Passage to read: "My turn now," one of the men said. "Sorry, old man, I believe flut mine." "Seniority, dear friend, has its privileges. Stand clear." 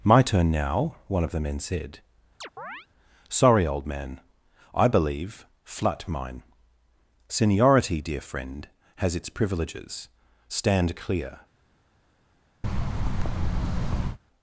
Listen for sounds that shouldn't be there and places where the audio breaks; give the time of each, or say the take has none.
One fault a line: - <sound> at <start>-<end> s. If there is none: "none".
- chirp at 2.4-2.9 s
- thud at 12.6-14.2 s